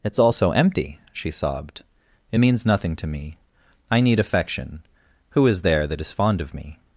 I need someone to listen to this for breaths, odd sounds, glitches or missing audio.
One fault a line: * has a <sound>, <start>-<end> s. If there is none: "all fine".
all fine